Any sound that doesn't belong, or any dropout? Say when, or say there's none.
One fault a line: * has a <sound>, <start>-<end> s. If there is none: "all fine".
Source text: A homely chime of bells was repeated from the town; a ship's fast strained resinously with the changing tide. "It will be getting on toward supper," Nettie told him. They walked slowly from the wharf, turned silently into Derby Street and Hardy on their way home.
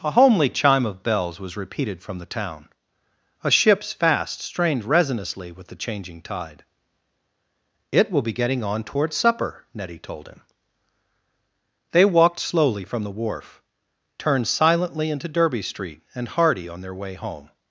all fine